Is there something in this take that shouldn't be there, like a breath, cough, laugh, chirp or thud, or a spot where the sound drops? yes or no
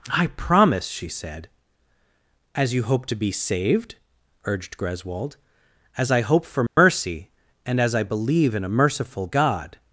yes